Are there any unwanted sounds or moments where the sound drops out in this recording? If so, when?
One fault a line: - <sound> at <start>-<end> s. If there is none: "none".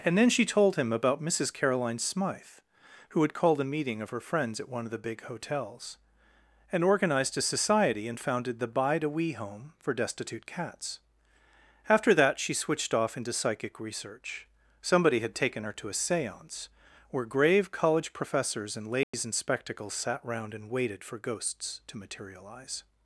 - dropout at 19.0-19.1 s